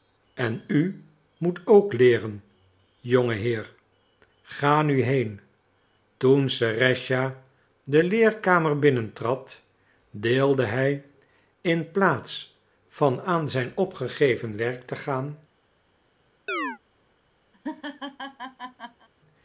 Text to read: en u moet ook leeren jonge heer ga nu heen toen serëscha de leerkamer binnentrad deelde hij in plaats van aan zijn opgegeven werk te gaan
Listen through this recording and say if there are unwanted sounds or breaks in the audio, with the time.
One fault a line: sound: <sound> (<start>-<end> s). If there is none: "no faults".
sound: chirp (16.5-16.8 s)
sound: laugh (17.5-19.1 s)